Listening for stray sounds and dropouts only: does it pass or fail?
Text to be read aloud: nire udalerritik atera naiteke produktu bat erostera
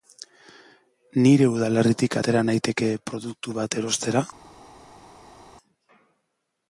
pass